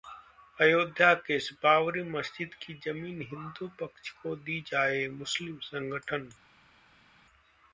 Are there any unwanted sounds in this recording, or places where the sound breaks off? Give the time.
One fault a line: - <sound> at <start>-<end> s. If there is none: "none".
none